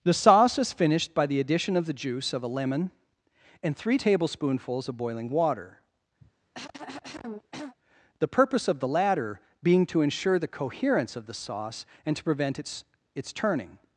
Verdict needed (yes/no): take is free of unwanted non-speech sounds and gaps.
no